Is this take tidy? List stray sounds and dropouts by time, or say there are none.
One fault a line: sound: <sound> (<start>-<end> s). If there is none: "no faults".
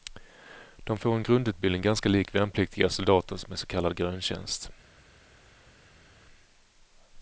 no faults